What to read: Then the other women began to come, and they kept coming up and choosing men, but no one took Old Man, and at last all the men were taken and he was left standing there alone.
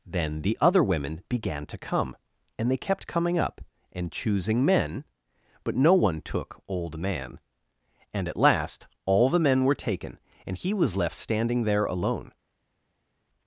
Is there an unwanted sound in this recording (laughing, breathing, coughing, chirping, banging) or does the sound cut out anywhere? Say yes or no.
no